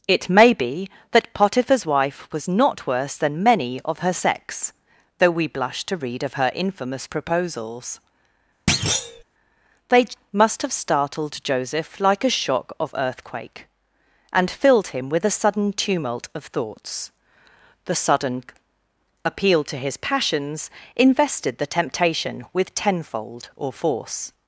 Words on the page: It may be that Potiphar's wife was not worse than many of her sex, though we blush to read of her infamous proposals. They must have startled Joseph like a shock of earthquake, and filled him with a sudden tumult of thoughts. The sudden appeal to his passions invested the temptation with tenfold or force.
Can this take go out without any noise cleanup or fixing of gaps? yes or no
no